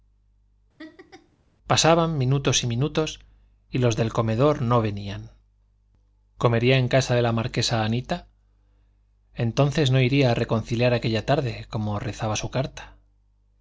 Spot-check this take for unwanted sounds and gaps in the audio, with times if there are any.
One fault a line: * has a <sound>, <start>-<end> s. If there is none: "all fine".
* has a laugh, 0.8-1.4 s